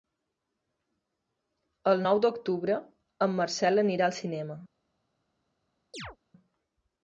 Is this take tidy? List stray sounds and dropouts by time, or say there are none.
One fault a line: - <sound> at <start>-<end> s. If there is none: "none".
- chirp at 5.9-6.2 s